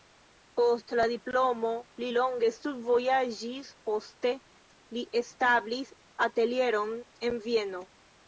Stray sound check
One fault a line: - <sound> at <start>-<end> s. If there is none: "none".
none